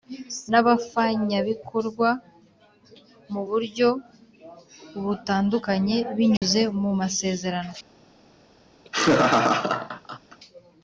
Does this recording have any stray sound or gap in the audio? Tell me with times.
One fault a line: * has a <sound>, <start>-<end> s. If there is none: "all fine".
* has a dropout, 6.4-6.4 s
* has a laugh, 8.8-10.4 s